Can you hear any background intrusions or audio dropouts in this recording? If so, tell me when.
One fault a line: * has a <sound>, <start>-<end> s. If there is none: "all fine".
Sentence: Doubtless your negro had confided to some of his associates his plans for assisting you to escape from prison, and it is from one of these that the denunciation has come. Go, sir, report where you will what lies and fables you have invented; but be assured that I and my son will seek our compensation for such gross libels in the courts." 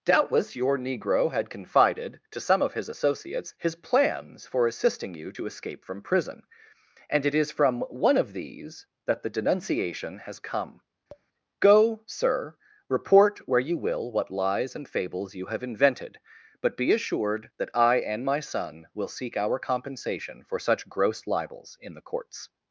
* has a tap, 11.1-11.3 s